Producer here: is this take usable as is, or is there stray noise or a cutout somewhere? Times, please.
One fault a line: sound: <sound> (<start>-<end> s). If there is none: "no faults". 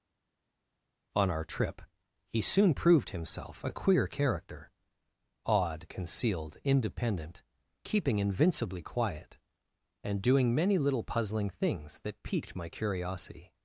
no faults